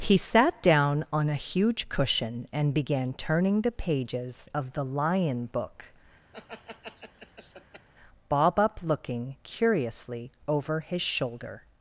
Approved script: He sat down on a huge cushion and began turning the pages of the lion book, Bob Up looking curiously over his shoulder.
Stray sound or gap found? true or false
true